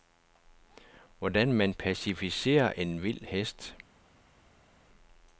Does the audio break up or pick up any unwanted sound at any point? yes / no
no